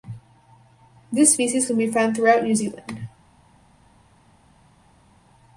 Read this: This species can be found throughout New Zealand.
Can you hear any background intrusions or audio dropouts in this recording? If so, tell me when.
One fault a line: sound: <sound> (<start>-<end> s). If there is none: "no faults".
no faults